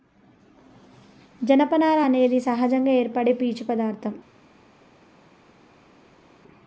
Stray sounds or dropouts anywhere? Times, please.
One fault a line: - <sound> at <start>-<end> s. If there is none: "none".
none